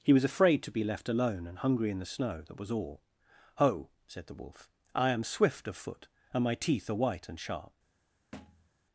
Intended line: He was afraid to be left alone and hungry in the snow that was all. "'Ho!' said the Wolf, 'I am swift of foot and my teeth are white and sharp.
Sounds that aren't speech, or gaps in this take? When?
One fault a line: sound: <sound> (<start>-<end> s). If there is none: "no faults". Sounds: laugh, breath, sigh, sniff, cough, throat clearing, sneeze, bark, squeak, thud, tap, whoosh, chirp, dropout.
sound: thud (8.3-8.7 s)